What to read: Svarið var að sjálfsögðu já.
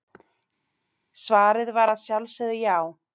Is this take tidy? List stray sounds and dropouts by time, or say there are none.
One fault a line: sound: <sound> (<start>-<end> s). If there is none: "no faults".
no faults